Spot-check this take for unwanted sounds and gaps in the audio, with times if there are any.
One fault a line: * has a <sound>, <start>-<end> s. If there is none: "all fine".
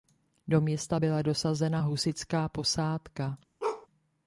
* has a bark, 3.6-3.9 s